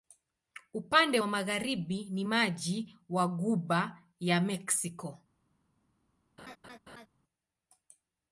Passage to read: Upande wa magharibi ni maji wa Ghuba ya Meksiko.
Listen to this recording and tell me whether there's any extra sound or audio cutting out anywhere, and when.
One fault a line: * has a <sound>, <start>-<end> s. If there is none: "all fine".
* has a laugh, 6.4-7.1 s